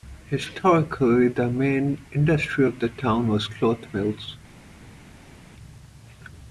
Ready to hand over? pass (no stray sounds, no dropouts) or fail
pass